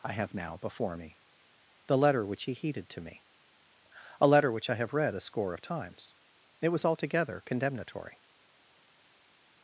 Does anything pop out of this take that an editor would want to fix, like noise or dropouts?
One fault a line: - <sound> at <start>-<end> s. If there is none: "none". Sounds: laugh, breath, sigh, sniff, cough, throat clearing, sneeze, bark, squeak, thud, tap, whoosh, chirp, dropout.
none